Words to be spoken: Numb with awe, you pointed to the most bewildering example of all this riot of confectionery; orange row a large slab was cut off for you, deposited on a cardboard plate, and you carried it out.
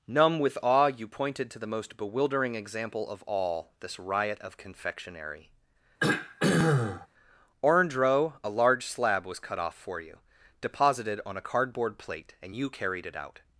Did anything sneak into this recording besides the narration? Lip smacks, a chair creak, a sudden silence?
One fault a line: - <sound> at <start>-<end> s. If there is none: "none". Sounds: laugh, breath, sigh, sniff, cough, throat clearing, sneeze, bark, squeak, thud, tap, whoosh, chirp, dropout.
- throat clearing at 6.0-7.1 s